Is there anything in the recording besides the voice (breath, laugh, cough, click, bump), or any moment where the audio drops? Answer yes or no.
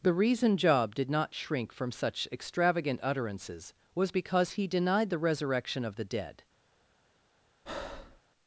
yes